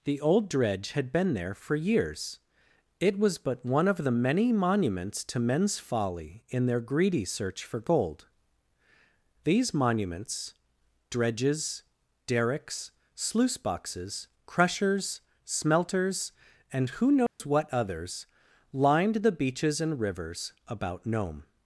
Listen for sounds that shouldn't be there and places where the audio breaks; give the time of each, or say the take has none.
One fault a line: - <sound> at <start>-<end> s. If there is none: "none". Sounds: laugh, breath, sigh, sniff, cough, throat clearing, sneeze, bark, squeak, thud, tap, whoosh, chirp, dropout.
- dropout at 17.3-17.4 s